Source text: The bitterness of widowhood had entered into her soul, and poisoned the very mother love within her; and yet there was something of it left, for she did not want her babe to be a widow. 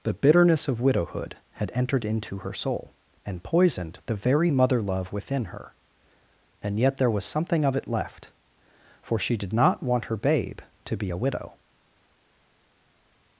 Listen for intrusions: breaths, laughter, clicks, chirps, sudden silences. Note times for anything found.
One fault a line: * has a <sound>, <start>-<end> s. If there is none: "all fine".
all fine